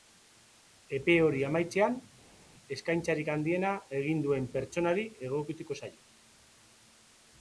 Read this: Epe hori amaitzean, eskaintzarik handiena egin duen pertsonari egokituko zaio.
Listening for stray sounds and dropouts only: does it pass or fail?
pass